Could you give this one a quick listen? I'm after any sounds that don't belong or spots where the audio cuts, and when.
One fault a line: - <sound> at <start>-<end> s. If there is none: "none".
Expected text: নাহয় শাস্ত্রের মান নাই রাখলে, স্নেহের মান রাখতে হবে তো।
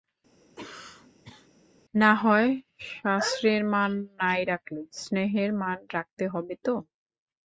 - cough at 0.4-1.5 s